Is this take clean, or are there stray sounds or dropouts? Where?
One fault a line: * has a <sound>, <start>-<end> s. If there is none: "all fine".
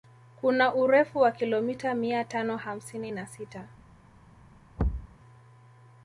* has a thud, 4.8-5.2 s